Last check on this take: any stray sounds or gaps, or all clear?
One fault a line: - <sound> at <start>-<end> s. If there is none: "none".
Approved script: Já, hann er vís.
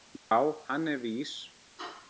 - dropout at 0.2-0.3 s